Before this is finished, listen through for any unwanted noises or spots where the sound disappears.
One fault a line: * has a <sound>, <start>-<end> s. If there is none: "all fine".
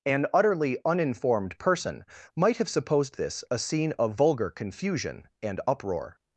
all fine